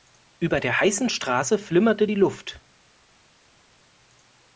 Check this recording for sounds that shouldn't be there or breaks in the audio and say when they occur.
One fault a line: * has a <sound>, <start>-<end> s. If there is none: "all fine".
all fine